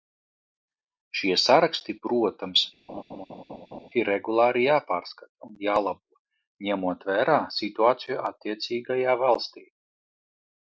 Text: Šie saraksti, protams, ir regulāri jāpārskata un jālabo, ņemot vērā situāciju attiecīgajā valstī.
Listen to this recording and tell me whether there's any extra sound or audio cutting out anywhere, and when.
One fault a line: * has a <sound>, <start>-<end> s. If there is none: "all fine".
* has a laugh, 2.9-3.9 s